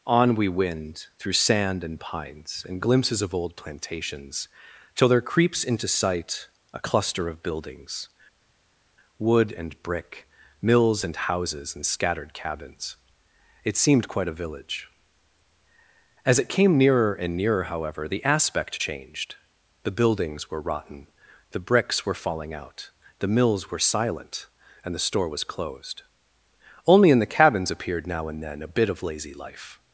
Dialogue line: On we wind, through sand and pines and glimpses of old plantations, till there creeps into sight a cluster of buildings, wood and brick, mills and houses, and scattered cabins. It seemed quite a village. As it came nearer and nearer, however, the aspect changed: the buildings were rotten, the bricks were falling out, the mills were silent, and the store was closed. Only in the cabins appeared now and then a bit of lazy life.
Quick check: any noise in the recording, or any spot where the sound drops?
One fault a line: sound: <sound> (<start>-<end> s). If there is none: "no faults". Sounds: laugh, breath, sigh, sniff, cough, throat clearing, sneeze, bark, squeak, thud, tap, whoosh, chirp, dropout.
no faults